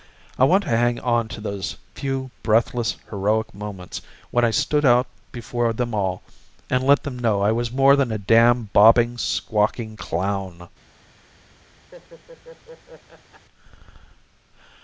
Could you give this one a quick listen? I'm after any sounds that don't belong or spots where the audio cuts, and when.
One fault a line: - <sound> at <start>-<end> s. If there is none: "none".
- laugh at 11.9-13.5 s